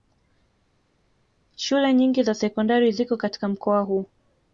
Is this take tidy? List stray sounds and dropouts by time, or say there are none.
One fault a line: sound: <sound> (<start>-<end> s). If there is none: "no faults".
no faults